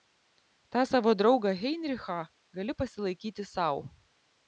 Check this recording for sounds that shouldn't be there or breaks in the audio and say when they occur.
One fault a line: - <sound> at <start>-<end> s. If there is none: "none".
none